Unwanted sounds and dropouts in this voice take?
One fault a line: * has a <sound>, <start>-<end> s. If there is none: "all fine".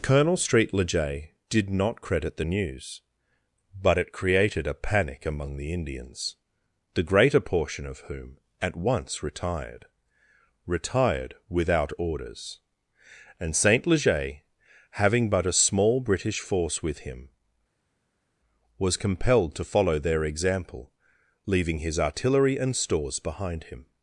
all fine